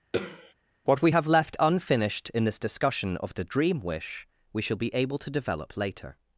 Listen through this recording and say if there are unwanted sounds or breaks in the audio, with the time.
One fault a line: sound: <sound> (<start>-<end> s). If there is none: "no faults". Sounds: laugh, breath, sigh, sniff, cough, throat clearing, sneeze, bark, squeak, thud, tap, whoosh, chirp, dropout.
sound: throat clearing (0.1-0.5 s)